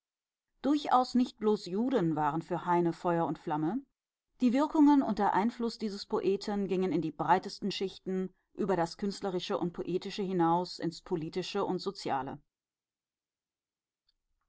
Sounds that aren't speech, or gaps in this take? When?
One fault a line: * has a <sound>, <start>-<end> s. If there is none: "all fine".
all fine